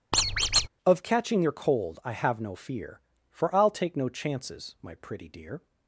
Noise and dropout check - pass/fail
fail